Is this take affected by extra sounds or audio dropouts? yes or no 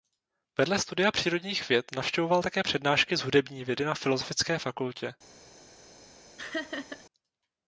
yes